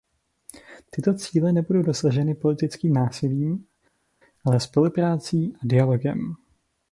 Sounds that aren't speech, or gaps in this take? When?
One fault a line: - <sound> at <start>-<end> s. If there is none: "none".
none